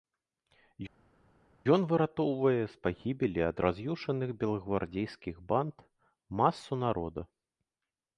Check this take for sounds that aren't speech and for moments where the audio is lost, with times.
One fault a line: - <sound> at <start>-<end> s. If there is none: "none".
none